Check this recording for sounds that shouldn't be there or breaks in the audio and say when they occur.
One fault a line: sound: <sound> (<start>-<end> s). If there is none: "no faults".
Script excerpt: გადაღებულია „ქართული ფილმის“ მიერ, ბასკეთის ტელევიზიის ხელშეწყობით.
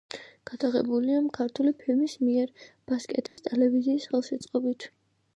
sound: dropout (3.3-3.4 s)